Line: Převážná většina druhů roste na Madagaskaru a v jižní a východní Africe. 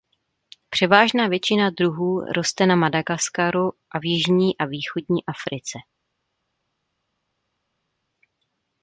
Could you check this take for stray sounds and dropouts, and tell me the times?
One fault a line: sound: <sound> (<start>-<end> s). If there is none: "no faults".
no faults